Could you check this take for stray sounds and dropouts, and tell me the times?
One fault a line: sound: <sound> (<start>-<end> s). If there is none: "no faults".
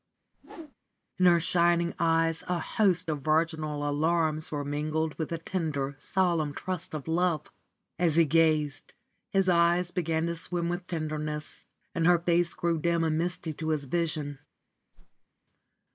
sound: whoosh (0.3-0.7 s)
sound: whoosh (14.9-15.3 s)